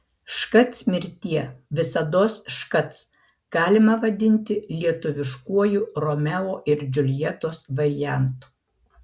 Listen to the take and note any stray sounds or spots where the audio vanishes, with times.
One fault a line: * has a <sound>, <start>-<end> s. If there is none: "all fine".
all fine